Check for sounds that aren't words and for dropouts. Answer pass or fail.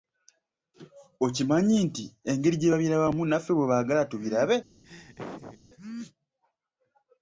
fail